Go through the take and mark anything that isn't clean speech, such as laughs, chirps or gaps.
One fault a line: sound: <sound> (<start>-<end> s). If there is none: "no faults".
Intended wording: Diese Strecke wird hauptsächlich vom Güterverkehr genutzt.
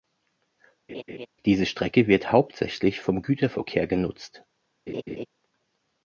sound: laugh (0.9-1.3 s)
sound: laugh (4.9-5.3 s)